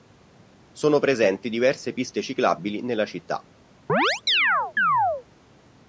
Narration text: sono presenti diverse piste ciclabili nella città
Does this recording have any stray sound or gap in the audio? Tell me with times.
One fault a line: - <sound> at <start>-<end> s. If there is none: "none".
- chirp at 3.9-5.2 s